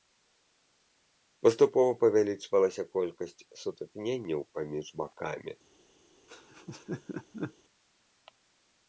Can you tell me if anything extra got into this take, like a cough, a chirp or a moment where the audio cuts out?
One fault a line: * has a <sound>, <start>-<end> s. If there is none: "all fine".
* has a laugh, 6.3-7.5 s